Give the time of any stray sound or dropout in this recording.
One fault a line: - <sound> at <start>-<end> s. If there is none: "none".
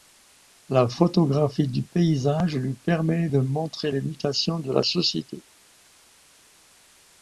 none